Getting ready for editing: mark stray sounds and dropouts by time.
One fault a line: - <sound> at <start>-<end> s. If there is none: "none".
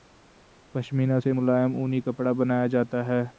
none